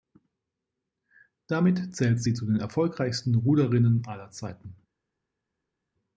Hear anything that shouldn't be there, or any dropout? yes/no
no